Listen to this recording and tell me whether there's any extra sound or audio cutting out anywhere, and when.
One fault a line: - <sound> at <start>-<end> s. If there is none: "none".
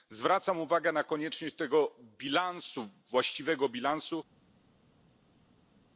none